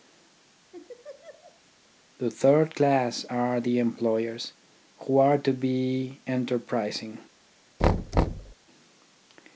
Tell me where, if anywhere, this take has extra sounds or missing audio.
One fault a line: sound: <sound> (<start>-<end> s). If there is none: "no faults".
sound: laugh (0.7-1.6 s)
sound: thud (7.8-8.5 s)